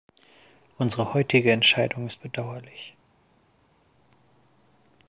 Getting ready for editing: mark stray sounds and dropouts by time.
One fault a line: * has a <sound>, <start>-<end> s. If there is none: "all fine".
all fine